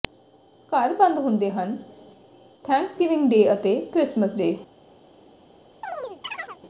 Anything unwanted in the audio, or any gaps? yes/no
yes